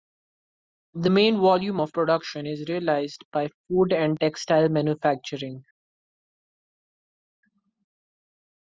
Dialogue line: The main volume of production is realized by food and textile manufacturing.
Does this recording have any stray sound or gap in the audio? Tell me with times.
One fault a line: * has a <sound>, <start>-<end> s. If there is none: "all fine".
all fine